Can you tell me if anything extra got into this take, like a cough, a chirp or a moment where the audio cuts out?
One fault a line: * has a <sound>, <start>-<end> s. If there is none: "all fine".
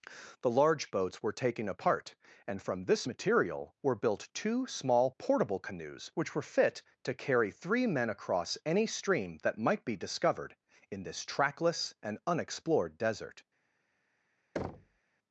* has a thud, 14.6-15.0 s